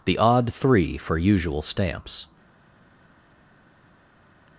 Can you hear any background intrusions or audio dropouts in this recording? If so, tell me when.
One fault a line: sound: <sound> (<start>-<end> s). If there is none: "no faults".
no faults